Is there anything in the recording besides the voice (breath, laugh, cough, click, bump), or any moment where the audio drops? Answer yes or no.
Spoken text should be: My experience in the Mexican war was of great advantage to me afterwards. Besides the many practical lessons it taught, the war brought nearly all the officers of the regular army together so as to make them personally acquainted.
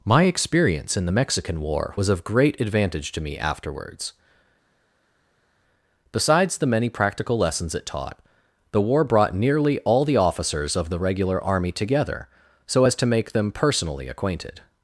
no